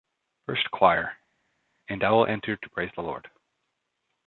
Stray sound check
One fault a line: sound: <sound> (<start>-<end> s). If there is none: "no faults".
no faults